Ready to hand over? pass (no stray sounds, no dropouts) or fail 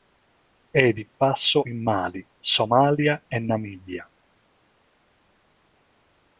pass